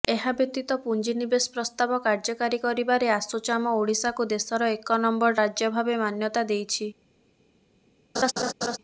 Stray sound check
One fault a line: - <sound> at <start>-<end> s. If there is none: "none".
- laugh at 8.1-8.8 s